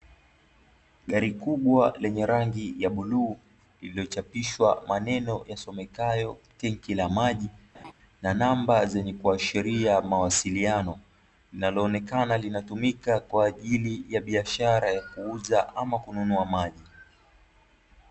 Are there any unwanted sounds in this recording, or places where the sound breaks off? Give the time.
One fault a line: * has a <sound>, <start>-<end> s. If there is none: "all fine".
* has a laugh, 7.7-7.9 s